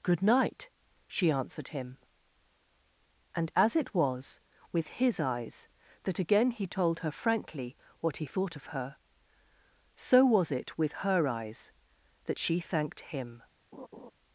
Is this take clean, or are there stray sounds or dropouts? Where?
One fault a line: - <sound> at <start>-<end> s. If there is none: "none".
- laugh at 13.7-14.1 s